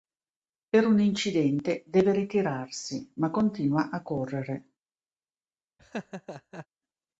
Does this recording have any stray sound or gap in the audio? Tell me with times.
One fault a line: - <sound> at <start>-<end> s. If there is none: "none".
- laugh at 5.8-6.7 s